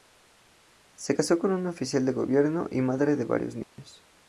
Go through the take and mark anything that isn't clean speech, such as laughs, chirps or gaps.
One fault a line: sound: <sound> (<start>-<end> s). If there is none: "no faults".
sound: dropout (3.6-3.8 s)